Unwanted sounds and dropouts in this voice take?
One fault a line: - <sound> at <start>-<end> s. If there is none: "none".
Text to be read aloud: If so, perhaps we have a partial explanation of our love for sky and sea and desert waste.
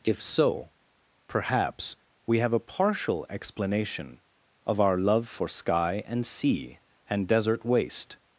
none